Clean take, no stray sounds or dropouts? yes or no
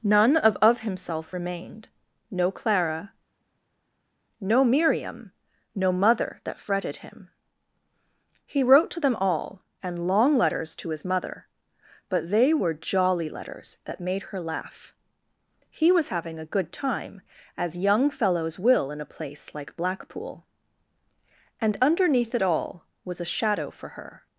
yes